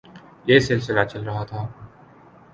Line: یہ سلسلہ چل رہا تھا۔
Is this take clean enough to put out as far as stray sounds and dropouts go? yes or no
yes